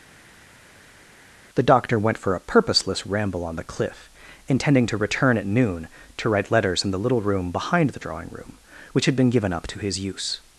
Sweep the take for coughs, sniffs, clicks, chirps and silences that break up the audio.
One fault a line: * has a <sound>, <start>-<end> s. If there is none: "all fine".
all fine